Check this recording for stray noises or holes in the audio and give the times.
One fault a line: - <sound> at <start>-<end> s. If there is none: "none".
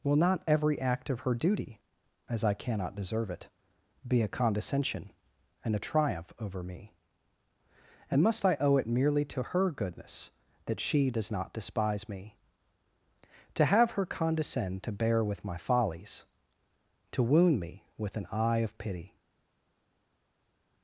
none